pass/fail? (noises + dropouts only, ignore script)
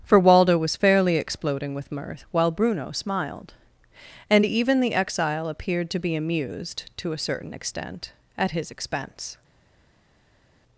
pass